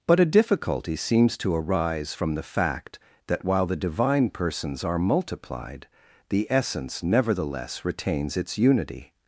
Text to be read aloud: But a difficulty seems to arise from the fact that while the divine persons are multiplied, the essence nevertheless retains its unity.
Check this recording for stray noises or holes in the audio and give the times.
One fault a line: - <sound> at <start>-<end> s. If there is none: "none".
none